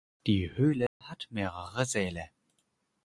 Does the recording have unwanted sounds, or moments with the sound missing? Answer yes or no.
yes